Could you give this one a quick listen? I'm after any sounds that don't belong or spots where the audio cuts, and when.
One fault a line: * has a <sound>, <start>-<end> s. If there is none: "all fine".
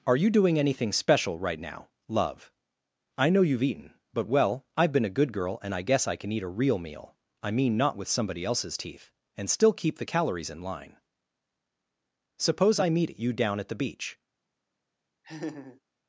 * has a laugh, 15.2-15.8 s